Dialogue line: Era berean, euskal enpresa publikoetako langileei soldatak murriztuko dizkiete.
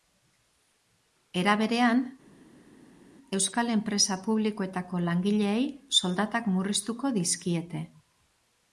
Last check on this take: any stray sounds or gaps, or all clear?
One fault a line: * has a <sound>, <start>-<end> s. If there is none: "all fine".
all fine